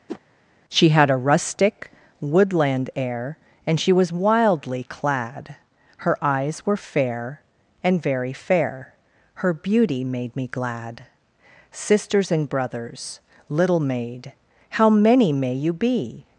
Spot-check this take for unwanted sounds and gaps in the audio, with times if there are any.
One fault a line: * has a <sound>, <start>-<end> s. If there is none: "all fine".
* has a whoosh, 0.1-0.2 s